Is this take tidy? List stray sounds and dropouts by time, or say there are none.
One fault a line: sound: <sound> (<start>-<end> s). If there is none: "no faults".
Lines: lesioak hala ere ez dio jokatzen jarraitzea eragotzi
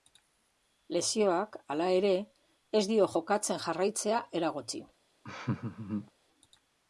sound: laugh (5.2-6.1 s)